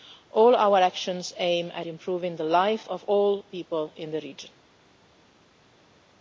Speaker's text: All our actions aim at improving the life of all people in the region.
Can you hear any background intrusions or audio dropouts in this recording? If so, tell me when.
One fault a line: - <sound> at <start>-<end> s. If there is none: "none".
none